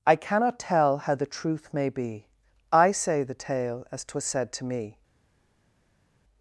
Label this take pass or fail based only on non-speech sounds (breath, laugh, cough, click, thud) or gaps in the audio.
pass